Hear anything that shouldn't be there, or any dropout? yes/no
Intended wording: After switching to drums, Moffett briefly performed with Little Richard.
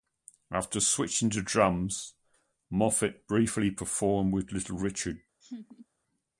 yes